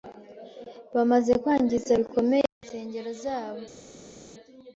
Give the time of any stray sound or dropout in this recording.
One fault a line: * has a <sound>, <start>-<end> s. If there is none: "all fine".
all fine